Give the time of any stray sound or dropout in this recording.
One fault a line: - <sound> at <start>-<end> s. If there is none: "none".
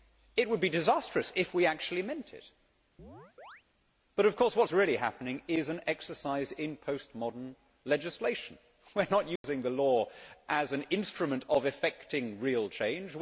- chirp at 3.0-3.6 s
- dropout at 9.4-9.4 s